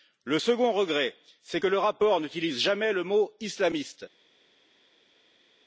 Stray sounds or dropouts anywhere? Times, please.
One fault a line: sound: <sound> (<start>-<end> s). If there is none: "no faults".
no faults